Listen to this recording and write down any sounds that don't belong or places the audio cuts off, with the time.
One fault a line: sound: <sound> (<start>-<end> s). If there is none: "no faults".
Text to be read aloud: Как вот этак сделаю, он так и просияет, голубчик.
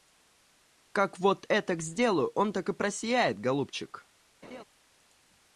sound: laugh (4.4-4.6 s)